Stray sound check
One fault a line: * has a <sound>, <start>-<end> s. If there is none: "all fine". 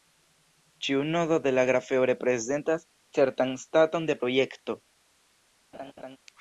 * has a laugh, 5.7-6.2 s